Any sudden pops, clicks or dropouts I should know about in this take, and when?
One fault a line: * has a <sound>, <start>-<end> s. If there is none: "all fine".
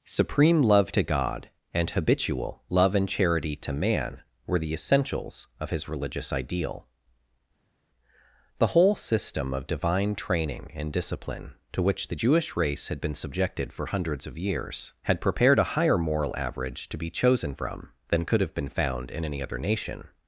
all fine